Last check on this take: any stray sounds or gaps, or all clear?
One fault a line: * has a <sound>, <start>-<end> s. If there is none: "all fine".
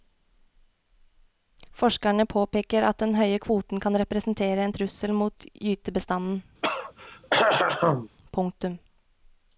* has a throat clearing, 6.6-8.1 s